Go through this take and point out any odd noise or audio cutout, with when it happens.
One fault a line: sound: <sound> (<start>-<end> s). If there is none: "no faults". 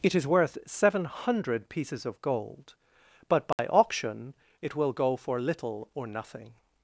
sound: dropout (3.5-3.6 s)